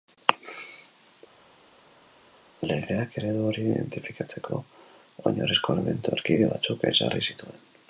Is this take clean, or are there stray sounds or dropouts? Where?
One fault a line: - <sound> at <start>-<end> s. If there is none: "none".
none